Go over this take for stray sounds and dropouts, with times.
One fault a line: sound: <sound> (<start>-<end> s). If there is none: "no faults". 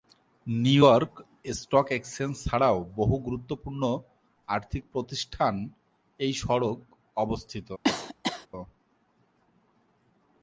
sound: cough (7.8-8.5 s)